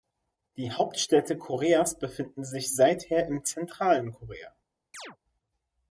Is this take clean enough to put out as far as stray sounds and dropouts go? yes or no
no